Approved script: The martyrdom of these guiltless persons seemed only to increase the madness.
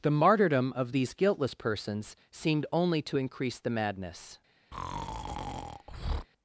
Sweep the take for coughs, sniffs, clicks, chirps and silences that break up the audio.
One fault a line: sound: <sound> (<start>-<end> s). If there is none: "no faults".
sound: breath (4.7-6.3 s)